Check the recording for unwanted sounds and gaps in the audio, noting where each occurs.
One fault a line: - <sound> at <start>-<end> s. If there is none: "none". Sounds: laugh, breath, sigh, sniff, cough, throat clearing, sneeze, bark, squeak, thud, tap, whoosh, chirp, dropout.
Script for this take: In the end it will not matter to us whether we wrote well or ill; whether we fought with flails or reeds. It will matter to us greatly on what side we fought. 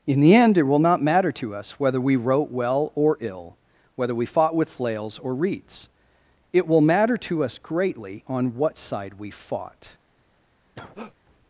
- cough at 10.8-11.2 s